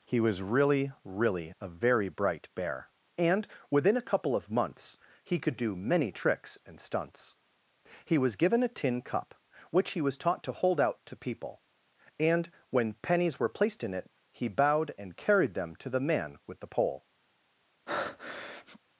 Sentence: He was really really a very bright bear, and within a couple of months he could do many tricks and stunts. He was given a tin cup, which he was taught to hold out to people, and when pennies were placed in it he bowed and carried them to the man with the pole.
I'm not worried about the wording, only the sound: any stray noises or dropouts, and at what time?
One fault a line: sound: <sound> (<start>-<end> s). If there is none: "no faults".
sound: breath (17.9-18.8 s)